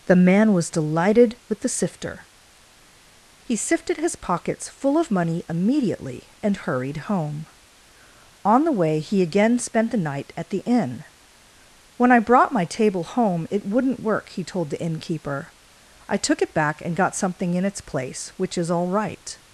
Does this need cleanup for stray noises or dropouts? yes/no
no